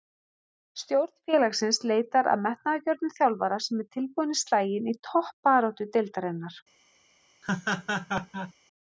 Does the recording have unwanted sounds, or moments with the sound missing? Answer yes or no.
yes